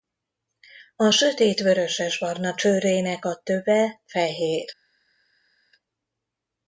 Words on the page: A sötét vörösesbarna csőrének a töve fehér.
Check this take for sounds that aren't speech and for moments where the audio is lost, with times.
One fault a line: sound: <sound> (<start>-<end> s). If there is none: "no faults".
no faults